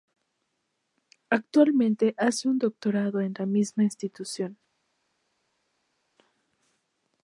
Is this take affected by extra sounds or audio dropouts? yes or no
no